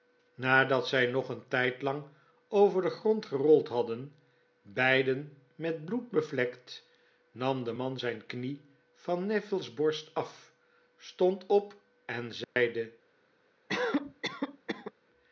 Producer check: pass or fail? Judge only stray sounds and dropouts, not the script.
fail